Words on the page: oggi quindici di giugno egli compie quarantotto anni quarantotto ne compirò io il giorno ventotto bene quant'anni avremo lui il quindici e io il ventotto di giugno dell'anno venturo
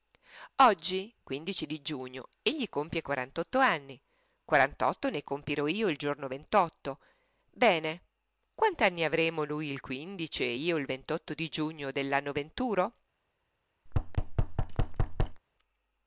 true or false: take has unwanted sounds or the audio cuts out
true